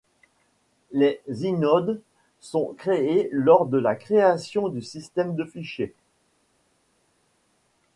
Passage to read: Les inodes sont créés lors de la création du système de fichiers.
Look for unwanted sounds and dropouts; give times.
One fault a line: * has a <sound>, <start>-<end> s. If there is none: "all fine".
all fine